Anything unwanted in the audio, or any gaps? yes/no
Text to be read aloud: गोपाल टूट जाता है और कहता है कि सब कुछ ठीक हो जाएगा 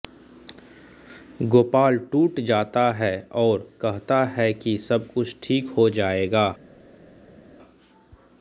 no